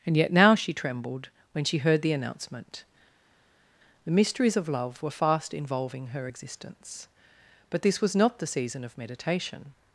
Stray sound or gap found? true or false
false